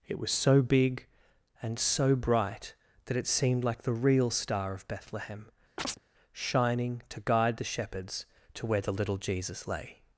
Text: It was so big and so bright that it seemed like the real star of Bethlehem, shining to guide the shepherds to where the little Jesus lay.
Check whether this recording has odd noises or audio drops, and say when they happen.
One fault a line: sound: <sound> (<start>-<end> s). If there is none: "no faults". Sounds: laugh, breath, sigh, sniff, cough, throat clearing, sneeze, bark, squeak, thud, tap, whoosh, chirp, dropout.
sound: chirp (5.8-6.0 s)